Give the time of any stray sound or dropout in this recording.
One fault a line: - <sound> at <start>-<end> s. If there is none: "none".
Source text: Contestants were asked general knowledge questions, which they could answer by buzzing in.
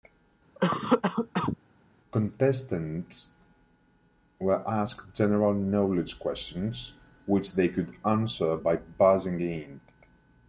- cough at 0.6-1.6 s